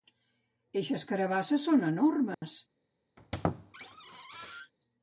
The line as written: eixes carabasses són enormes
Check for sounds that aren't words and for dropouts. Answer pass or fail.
fail